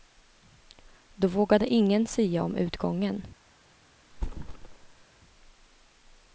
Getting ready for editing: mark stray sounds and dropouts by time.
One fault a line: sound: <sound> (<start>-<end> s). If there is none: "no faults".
sound: thud (4.1-5.0 s)